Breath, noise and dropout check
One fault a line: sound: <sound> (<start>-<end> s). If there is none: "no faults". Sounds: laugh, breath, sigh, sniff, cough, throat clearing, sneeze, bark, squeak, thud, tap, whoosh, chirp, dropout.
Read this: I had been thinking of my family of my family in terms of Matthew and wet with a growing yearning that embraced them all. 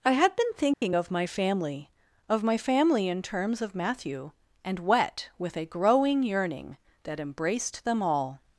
sound: dropout (0.7-0.8 s)